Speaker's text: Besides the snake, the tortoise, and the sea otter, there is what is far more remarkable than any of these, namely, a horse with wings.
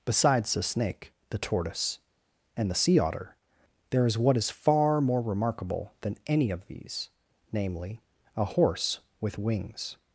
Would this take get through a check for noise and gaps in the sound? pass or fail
pass